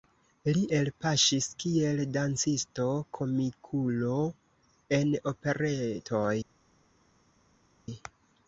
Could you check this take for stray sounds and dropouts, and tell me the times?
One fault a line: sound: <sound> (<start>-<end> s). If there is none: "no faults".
no faults